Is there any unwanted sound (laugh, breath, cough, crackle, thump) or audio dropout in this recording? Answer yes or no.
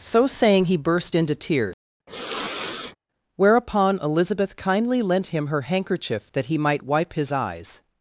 yes